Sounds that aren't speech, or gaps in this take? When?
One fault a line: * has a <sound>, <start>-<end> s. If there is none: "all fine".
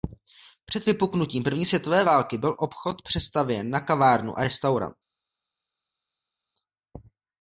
all fine